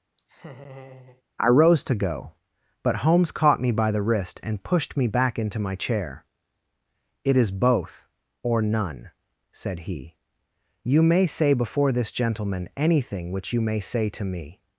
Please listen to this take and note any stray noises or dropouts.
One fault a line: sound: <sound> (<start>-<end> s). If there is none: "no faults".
sound: laugh (0.2-1.2 s)